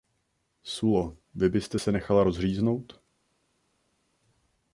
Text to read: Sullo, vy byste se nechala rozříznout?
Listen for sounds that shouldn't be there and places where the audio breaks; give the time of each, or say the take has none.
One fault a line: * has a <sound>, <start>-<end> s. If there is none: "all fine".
all fine